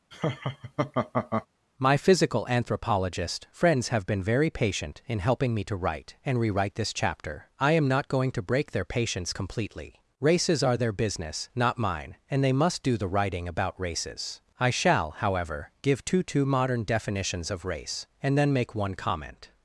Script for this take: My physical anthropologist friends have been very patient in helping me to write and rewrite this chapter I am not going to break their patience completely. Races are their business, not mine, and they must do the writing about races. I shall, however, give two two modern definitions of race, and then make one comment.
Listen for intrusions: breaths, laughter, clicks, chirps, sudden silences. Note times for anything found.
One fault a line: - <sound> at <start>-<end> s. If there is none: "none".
- laugh at 0.1-1.5 s